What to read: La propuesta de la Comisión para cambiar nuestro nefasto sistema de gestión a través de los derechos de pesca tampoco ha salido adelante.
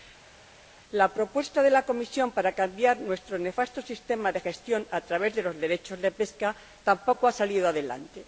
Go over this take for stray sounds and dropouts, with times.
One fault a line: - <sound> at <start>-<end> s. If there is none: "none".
none